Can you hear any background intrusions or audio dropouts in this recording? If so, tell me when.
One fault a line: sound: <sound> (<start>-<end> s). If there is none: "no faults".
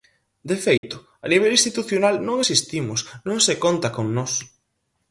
sound: dropout (0.8-0.8 s)